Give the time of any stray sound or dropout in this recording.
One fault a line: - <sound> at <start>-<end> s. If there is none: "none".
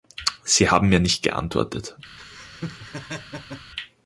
- laugh at 2.2-3.7 s